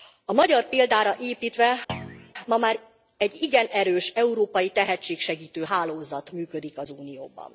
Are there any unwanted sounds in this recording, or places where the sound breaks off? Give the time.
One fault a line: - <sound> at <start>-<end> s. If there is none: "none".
- thud at 1.9-2.3 s